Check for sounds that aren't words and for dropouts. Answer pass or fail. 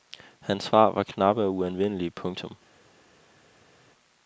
pass